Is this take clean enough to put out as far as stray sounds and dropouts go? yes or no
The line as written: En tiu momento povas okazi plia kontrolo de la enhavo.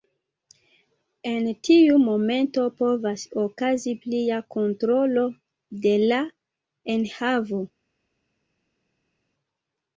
yes